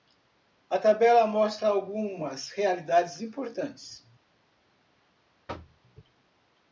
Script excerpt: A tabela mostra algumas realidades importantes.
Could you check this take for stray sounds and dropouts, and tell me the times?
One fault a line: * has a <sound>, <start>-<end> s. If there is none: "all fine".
* has a thud, 5.5-5.8 s